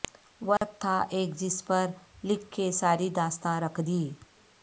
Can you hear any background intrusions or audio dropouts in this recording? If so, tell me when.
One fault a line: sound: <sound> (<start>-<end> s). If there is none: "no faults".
sound: dropout (0.6-0.6 s)